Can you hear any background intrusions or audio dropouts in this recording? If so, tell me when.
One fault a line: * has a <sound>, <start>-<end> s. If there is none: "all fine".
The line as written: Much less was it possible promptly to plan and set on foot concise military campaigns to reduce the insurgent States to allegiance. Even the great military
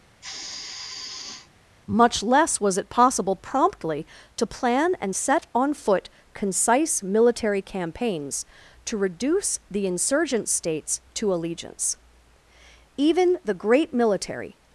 * has a sigh, 0.2-1.5 s